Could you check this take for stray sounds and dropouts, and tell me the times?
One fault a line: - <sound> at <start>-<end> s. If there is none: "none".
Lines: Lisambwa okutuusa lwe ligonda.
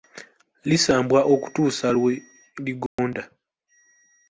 - dropout at 2.9-3.0 s